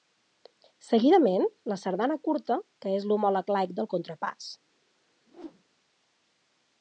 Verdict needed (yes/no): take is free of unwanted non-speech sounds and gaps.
no